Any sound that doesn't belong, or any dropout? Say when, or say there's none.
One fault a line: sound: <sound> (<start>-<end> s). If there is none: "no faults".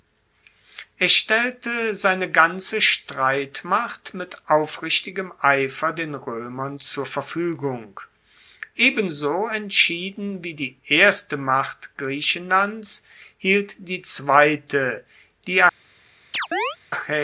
sound: chirp (16.3-16.8 s)